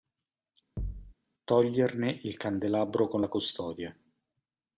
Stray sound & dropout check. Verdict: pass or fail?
fail